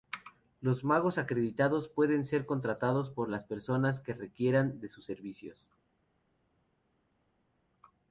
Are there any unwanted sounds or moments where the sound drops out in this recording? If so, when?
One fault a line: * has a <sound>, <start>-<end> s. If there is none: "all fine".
all fine